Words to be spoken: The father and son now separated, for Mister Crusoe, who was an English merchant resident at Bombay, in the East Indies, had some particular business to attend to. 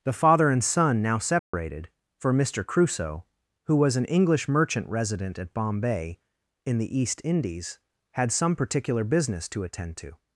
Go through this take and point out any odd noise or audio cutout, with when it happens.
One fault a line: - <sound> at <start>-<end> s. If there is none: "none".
- dropout at 1.4-1.5 s